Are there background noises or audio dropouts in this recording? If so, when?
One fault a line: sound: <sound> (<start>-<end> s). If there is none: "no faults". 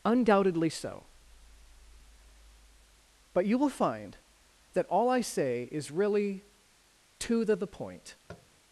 sound: tap (8.3-8.5 s)